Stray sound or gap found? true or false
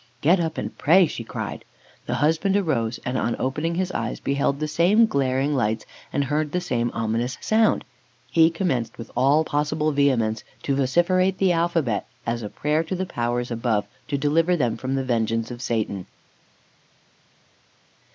false